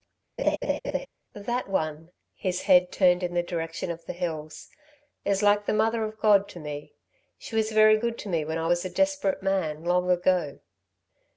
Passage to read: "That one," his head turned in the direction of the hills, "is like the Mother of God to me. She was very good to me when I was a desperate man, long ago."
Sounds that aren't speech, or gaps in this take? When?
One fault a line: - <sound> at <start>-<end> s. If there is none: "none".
- laugh at 0.4-1.1 s